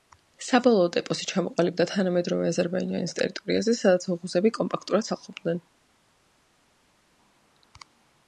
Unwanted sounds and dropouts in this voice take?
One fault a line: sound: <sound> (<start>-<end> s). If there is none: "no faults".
no faults